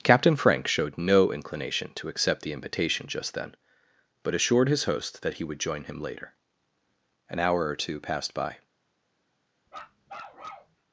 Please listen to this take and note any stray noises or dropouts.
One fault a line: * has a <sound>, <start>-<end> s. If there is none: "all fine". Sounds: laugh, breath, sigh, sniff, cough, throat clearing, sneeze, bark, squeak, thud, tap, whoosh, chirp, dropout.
* has a bark, 9.7-10.8 s